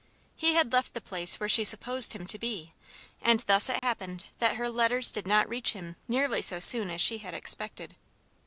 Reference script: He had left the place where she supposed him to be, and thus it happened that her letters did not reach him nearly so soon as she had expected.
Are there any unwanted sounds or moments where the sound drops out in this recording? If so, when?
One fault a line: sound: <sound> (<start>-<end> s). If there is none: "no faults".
sound: dropout (3.8-3.8 s)